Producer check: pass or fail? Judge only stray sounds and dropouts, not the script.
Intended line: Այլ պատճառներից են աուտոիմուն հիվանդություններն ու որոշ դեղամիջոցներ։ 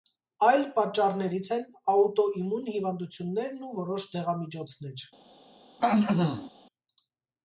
fail